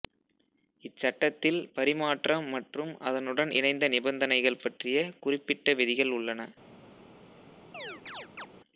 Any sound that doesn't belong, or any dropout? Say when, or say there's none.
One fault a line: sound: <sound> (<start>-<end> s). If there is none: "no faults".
sound: chirp (7.7-8.5 s)